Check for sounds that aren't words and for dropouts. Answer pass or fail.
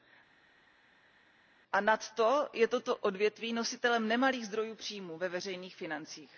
pass